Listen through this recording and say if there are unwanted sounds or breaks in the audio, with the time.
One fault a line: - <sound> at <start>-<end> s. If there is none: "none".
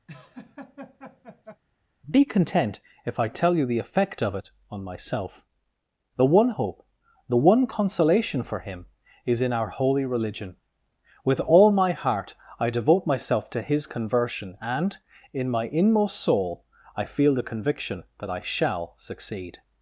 - laugh at 0.1-1.6 s